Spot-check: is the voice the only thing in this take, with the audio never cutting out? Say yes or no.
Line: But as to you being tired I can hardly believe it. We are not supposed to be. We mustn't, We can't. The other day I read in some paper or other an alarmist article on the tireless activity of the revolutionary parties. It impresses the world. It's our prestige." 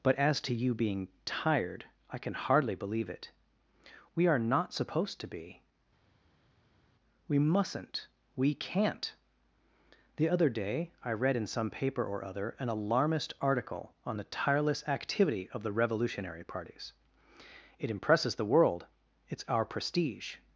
yes